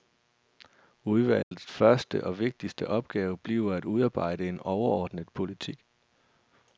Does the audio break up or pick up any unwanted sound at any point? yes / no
yes